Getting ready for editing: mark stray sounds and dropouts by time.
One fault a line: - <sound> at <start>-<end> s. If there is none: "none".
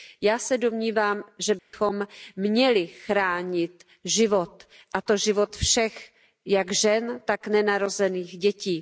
- dropout at 1.6-1.7 s